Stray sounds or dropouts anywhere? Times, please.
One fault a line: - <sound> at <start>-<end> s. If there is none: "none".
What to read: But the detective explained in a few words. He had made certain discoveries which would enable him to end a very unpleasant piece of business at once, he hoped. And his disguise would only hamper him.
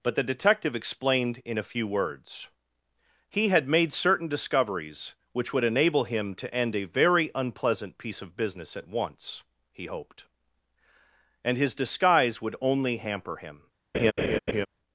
- laugh at 13.9-14.7 s